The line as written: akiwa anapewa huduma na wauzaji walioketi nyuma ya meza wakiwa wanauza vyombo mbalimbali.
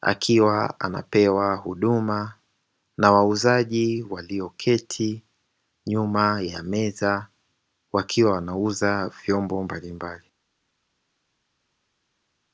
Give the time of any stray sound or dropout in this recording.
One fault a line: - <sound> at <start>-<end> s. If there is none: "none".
none